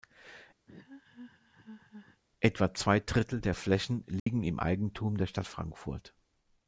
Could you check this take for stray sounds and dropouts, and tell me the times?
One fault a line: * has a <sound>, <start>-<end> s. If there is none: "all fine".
* has a laugh, 0.7-2.2 s
* has a dropout, 4.2-4.3 s